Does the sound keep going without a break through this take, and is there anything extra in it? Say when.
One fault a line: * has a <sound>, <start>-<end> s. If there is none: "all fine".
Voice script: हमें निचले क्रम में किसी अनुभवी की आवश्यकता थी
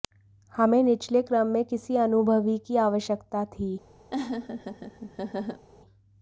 * has a laugh, 4.1-5.7 s